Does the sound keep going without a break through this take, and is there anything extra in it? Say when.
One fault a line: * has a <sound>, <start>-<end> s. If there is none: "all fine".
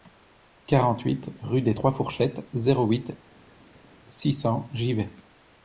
all fine